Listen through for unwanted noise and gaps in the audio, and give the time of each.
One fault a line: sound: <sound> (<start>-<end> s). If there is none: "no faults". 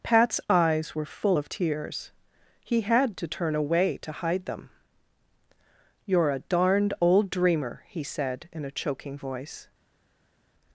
no faults